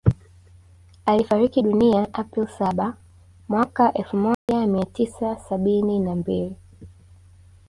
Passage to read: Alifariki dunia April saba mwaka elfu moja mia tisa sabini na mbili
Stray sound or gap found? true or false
true